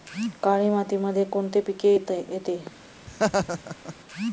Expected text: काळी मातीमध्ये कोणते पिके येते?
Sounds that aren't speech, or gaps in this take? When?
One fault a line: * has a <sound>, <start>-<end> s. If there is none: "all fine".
* has a laugh, 3.1-3.9 s